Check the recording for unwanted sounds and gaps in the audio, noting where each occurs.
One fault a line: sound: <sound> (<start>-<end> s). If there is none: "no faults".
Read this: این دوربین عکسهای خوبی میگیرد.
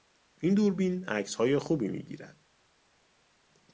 no faults